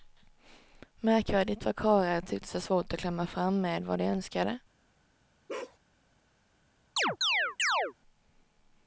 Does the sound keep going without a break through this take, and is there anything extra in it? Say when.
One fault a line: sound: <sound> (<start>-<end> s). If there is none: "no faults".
sound: bark (5.5-5.8 s)
sound: chirp (7.0-7.9 s)